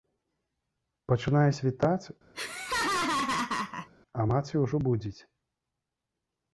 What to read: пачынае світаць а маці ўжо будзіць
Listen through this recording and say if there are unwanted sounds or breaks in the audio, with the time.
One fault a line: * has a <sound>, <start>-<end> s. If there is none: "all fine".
* has a laugh, 2.3-3.9 s